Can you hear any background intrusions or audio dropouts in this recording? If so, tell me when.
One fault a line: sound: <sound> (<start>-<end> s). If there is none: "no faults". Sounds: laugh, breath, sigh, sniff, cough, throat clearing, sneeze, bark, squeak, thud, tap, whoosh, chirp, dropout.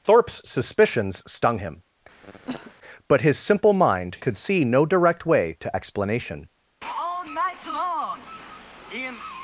sound: cough (2.2-2.7 s)